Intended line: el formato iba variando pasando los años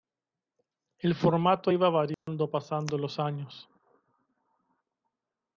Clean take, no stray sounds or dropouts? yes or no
no